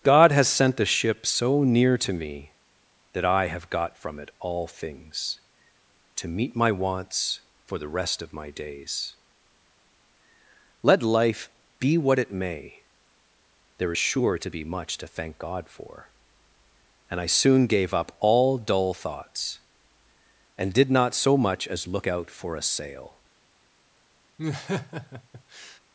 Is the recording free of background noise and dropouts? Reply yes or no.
no